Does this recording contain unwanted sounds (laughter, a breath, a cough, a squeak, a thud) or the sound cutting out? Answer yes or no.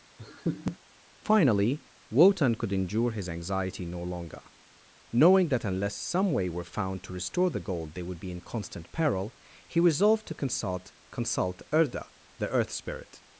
yes